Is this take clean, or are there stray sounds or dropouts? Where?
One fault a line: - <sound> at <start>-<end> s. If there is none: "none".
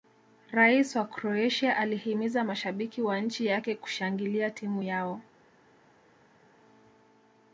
none